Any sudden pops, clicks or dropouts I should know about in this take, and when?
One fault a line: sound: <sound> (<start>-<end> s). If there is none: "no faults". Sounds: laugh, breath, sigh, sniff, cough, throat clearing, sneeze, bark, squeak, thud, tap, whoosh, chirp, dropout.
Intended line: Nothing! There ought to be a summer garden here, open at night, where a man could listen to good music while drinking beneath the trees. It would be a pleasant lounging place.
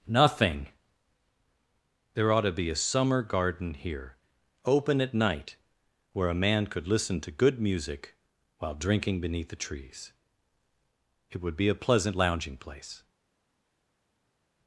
no faults